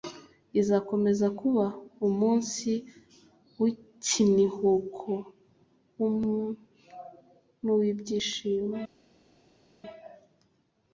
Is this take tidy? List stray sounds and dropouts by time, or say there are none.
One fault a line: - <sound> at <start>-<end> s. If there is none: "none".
none